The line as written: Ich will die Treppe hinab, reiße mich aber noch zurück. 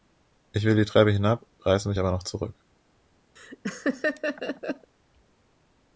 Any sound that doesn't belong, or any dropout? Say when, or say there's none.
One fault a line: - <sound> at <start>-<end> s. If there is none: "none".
- laugh at 3.4-4.9 s